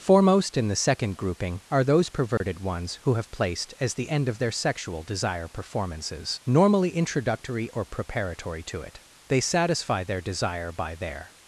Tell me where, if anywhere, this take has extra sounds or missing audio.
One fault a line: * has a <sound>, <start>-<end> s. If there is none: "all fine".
* has a dropout, 2.4-2.4 s